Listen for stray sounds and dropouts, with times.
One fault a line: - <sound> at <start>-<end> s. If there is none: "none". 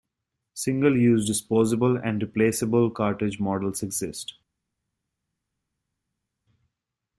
none